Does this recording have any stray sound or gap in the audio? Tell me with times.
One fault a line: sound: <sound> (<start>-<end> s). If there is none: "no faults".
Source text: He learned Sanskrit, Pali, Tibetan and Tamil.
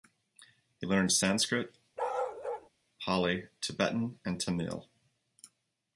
sound: bark (2.0-2.7 s)